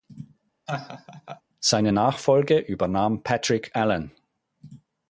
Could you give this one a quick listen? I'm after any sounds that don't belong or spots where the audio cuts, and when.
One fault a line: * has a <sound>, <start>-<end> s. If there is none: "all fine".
* has a laugh, 0.7-1.4 s